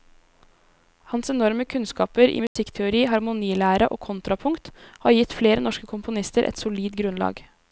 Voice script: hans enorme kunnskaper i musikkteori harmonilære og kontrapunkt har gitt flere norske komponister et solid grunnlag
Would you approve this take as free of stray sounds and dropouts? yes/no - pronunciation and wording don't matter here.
no